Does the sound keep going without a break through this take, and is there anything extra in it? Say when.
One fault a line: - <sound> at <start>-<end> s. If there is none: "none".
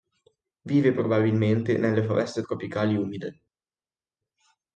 none